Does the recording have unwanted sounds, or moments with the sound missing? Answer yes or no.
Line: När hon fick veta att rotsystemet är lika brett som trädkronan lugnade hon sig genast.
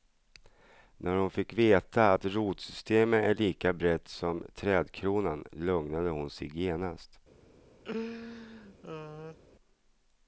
yes